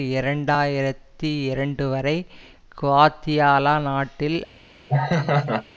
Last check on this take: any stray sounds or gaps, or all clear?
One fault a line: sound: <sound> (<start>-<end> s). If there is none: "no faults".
sound: laugh (4.9-5.6 s)